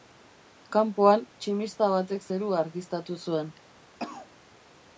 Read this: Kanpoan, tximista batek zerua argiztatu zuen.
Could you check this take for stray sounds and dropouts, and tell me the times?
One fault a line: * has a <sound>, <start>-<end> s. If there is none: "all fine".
* has a cough, 4.0-4.3 s